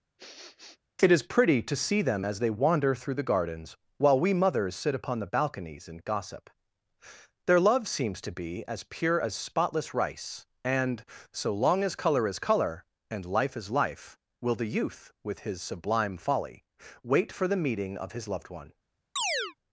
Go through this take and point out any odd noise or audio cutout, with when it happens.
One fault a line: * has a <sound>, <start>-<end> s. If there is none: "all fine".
* has a sniff, 0.2-0.8 s
* has a chirp, 19.2-19.5 s